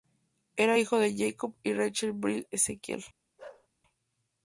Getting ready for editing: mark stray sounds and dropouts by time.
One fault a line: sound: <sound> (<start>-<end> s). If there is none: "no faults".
sound: bark (3.4-3.7 s)